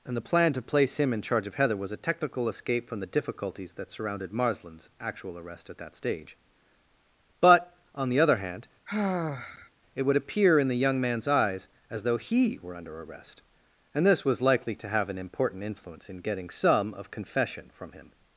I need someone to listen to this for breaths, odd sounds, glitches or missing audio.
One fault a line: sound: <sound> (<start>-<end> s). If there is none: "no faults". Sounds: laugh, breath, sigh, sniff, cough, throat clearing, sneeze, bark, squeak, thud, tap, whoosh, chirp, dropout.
sound: sigh (8.9-9.7 s)